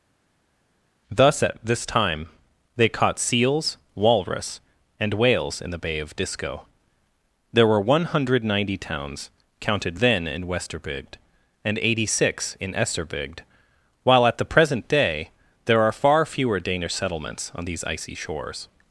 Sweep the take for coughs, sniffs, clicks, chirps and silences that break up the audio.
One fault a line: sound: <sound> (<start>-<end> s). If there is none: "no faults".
no faults